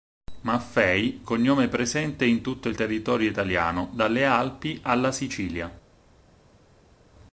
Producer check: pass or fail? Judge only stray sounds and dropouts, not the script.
pass